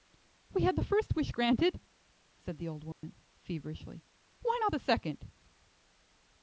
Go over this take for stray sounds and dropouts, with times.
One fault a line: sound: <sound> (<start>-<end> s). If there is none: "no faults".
sound: dropout (2.9-3.0 s)